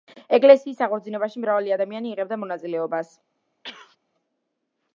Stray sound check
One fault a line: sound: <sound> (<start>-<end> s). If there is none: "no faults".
sound: sneeze (3.6-4.0 s)